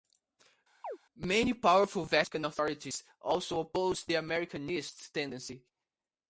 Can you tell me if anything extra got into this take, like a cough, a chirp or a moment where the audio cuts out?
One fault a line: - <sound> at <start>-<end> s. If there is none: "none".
- chirp at 0.8-1.0 s